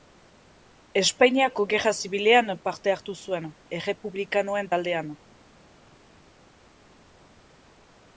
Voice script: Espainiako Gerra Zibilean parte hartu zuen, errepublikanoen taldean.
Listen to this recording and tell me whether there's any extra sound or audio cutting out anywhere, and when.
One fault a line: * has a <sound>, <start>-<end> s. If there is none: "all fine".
all fine